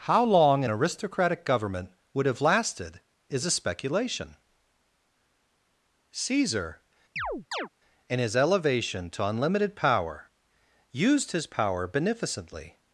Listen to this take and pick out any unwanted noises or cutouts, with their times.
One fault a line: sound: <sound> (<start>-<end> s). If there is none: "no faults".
sound: chirp (7.2-7.7 s)